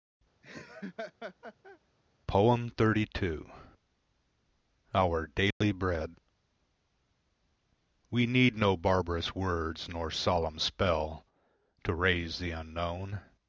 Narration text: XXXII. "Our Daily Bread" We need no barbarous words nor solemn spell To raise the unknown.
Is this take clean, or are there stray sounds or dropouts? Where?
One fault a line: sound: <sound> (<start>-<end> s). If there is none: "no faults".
sound: laugh (0.4-1.8 s)
sound: dropout (5.5-5.6 s)